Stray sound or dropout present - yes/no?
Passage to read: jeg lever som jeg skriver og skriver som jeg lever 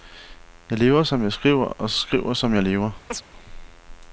yes